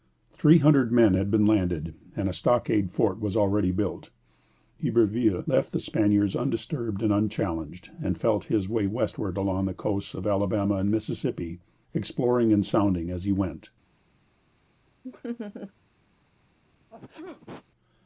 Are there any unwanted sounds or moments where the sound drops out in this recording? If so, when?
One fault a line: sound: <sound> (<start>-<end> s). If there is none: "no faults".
sound: laugh (15.0-15.7 s)
sound: sneeze (16.8-17.6 s)